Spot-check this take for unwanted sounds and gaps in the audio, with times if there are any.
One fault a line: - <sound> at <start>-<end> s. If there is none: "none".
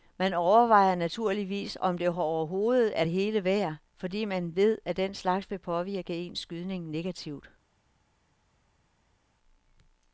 none